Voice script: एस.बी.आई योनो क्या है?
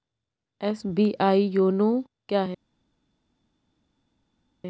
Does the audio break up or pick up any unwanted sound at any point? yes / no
no